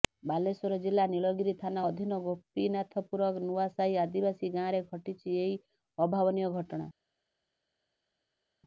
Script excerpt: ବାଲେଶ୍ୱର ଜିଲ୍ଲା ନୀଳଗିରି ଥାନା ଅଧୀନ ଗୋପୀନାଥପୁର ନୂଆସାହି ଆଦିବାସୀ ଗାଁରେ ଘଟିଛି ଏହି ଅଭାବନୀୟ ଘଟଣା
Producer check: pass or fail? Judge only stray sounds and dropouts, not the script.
pass